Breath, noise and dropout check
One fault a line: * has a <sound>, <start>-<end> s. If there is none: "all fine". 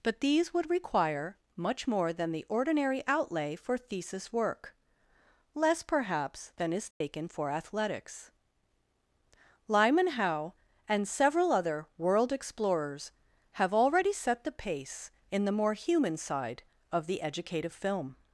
* has a dropout, 6.9-7.0 s